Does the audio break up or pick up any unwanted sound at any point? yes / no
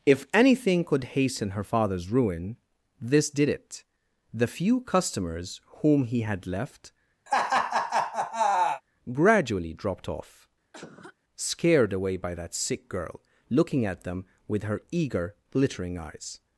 yes